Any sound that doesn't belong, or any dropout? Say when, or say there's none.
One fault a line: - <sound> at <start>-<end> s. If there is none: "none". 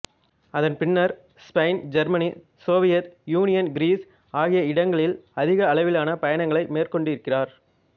none